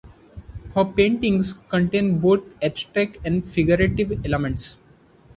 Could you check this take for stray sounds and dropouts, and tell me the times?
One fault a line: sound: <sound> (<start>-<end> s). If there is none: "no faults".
no faults